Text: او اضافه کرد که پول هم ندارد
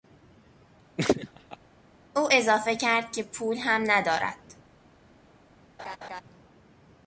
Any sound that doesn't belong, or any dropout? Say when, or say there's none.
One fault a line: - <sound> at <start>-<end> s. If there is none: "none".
- laugh at 1.0-1.6 s
- laugh at 5.8-6.2 s